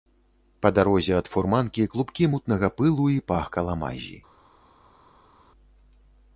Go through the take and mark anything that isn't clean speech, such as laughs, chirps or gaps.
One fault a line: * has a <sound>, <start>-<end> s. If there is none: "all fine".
all fine